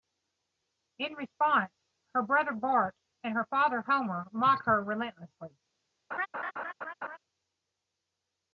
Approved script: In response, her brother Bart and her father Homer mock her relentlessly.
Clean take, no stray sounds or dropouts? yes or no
no